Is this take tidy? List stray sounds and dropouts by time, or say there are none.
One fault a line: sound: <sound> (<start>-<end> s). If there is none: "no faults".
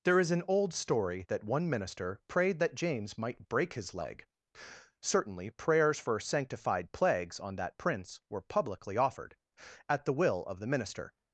no faults